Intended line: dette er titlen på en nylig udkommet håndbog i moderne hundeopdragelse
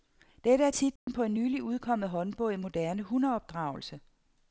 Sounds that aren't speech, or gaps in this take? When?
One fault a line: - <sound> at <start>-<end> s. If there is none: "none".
- dropout at 1.0-1.1 s